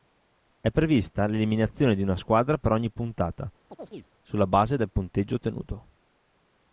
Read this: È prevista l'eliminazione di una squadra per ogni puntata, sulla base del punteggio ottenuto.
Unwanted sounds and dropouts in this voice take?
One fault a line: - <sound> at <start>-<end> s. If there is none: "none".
- chirp at 3.7-4.1 s